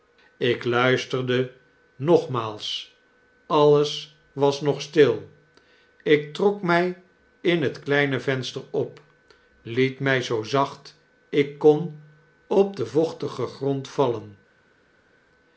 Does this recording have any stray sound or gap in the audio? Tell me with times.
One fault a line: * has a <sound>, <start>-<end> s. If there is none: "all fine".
all fine